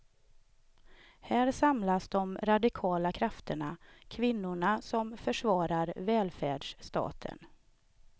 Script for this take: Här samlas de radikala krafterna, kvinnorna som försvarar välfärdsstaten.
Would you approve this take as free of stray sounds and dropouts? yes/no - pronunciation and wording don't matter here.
yes